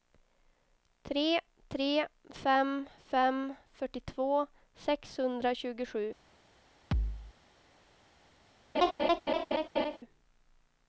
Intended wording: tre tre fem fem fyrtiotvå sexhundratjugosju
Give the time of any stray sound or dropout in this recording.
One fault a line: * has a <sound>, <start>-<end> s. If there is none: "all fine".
* has a thud, 6.9-7.3 s
* has a laugh, 8.7-10.0 s